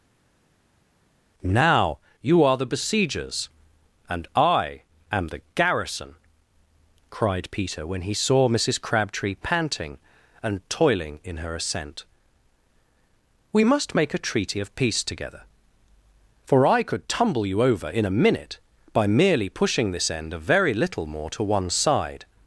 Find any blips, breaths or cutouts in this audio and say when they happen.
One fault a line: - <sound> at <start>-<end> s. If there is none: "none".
none